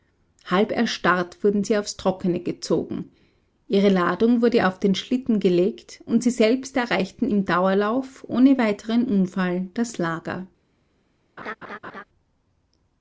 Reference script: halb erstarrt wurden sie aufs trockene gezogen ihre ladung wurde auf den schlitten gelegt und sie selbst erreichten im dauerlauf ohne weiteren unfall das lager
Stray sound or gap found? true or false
true